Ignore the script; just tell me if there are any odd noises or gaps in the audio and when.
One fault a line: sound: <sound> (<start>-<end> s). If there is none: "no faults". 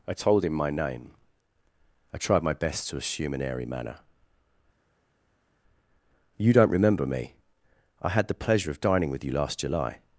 no faults